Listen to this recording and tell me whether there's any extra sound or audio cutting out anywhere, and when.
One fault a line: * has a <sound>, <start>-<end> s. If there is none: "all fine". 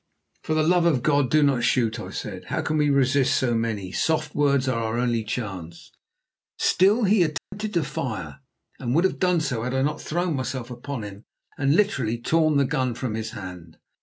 * has a dropout, 7.4-7.5 s